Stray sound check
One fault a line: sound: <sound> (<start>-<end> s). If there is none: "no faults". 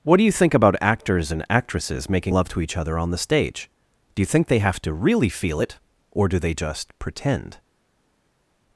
no faults